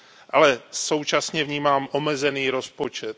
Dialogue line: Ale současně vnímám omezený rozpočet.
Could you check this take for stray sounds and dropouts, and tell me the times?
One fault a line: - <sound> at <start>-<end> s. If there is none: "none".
none